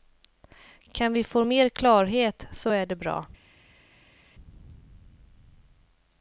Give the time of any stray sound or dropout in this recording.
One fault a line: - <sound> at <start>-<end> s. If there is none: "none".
none